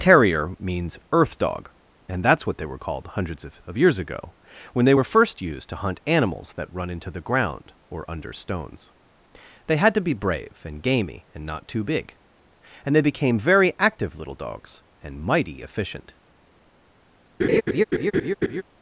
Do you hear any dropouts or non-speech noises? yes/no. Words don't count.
yes